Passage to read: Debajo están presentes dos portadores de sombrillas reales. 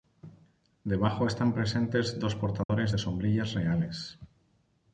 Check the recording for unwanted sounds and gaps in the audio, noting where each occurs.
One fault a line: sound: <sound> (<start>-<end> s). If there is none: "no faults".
sound: dropout (2.6-2.7 s)